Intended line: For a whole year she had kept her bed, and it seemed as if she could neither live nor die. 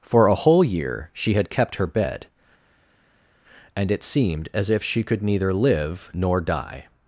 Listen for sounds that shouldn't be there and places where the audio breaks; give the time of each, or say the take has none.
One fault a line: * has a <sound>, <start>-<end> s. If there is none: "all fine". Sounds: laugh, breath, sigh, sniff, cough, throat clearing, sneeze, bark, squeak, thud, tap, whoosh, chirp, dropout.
all fine